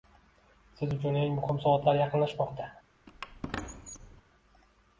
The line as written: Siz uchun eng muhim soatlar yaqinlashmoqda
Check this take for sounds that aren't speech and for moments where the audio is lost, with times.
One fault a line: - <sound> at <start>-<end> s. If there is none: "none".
- squeak at 3.1-4.2 s